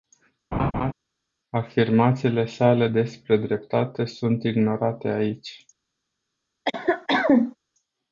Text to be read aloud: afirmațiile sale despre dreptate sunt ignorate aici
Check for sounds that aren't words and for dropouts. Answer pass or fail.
fail